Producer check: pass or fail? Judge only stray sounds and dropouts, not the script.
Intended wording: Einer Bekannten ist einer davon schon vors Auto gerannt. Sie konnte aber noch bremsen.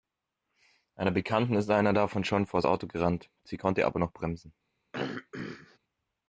fail